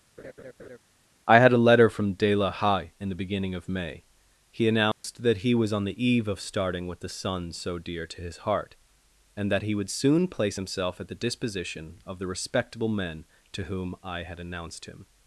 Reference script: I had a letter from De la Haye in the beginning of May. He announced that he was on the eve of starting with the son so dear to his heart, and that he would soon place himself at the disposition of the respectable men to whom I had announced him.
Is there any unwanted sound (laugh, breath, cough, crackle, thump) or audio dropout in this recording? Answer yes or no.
yes